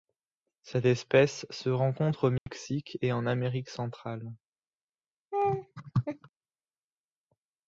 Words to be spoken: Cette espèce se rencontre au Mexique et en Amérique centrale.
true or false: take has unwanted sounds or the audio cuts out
true